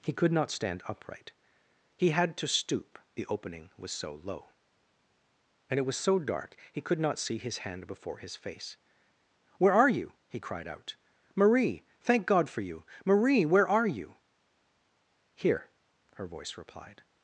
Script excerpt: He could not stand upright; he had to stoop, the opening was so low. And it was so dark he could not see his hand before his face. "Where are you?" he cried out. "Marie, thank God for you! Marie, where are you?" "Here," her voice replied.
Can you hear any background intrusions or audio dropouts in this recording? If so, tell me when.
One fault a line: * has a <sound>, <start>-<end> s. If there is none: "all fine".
all fine